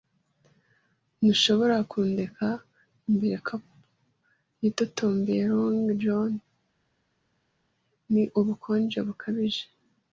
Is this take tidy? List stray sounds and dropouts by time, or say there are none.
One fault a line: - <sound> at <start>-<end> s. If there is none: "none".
none